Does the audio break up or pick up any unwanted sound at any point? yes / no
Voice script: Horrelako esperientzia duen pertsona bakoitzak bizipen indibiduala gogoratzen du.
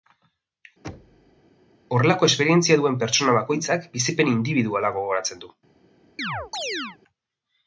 yes